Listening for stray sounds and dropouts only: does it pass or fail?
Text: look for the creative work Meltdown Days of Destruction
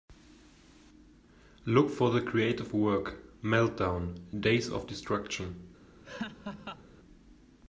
fail